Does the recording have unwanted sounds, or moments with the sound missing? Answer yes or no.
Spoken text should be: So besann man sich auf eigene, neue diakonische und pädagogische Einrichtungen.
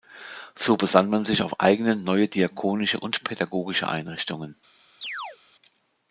yes